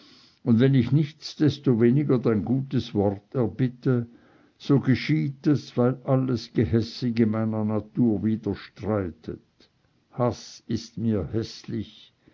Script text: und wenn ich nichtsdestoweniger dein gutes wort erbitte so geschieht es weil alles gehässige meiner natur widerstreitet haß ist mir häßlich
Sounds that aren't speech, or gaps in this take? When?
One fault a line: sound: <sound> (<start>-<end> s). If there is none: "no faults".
no faults